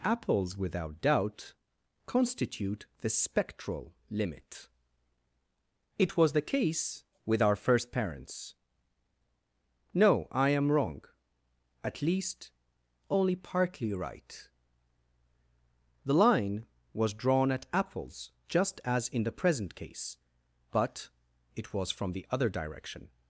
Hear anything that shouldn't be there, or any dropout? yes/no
no